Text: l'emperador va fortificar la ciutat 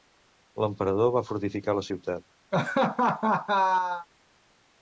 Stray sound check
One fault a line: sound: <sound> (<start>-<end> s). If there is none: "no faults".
sound: laugh (2.5-4.1 s)